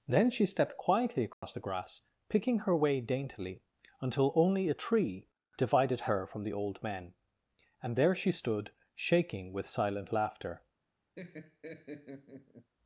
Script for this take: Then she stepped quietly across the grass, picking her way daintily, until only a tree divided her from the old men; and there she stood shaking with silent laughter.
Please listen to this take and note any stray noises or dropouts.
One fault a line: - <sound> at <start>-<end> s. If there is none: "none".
- dropout at 1.3-1.4 s
- laugh at 11.2-12.7 s